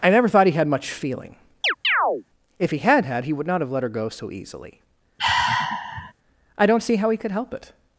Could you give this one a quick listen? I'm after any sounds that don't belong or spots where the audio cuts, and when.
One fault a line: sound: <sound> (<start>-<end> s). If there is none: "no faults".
sound: chirp (1.6-2.2 s)
sound: sigh (5.2-6.1 s)